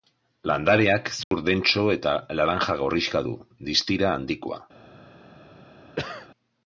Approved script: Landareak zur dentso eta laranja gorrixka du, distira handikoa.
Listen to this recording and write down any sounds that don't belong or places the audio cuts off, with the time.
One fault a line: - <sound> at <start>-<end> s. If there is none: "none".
- dropout at 1.2-1.3 s
- cough at 6.0-6.3 s